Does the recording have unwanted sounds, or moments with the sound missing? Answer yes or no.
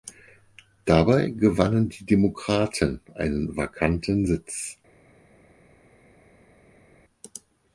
no